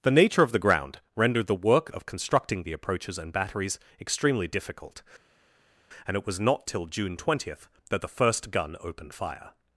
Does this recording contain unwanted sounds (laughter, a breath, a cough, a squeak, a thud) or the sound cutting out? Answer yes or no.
no